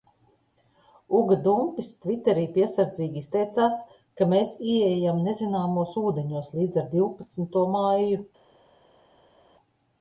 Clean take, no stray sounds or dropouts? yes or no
yes